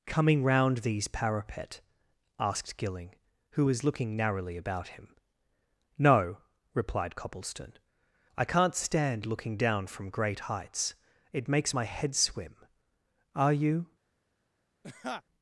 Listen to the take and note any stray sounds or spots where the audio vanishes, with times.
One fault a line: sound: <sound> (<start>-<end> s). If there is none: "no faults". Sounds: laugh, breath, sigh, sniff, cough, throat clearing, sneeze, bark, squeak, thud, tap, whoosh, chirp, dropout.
sound: laugh (14.8-15.2 s)